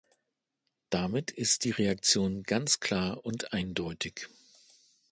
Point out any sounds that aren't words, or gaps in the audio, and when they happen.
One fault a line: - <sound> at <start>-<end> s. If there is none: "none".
none